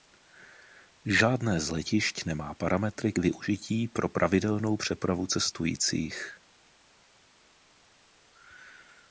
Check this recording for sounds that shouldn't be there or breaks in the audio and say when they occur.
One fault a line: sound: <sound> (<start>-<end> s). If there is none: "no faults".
no faults